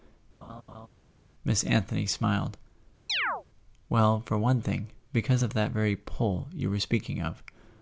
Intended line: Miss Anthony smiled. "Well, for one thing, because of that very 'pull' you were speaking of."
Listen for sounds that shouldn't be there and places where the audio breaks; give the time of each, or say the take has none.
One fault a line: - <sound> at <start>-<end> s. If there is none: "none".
- laugh at 0.4-0.9 s
- chirp at 3.1-3.4 s